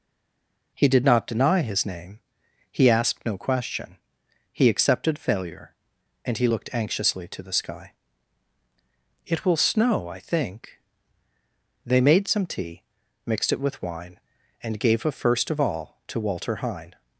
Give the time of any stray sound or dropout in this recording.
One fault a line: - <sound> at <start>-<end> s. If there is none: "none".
none